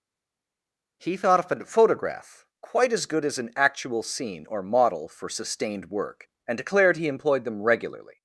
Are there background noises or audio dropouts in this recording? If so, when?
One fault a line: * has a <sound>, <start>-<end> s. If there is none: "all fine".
all fine